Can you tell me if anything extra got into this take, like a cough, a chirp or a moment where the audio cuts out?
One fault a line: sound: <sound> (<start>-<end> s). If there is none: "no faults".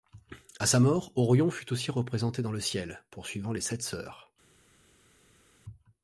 no faults